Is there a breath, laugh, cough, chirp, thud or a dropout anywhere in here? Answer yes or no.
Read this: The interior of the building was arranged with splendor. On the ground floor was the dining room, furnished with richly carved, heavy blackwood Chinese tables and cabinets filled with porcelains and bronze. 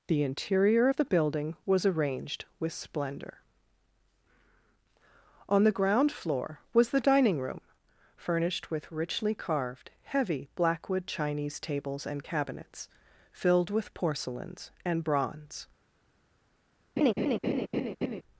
yes